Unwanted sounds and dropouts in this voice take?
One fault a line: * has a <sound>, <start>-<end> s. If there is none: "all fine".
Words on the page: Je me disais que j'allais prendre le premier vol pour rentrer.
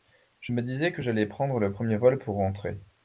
all fine